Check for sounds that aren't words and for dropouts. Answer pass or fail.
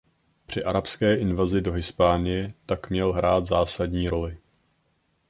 pass